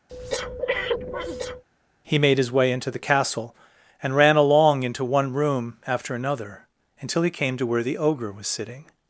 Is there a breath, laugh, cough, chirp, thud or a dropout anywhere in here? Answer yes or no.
yes